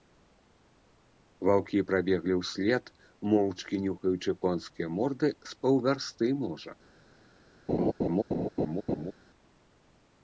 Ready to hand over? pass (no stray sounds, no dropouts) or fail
fail